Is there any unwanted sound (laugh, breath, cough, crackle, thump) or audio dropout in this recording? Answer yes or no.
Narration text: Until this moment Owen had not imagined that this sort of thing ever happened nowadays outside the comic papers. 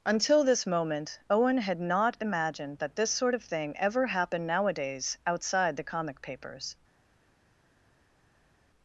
no